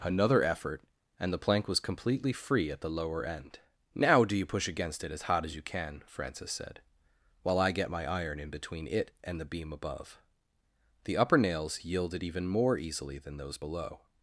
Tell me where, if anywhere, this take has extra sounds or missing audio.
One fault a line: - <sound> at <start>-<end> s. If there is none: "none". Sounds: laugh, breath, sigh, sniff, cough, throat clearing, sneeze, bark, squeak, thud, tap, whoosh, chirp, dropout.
none